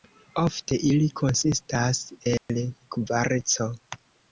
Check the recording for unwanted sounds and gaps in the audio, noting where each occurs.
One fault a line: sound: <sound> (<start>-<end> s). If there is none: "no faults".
sound: dropout (2.4-2.5 s)